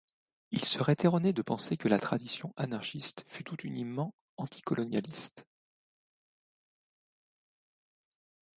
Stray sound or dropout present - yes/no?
no